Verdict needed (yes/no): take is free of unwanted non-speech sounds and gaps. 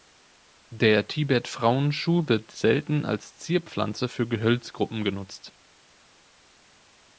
yes